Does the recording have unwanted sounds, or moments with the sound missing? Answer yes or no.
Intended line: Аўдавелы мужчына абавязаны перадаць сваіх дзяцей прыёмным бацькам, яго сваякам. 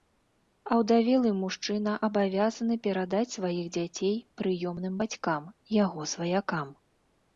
no